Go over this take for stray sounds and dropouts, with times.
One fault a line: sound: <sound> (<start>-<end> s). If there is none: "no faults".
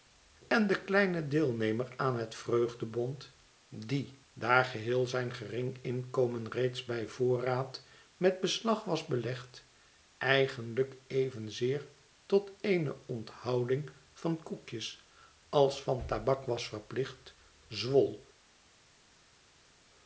no faults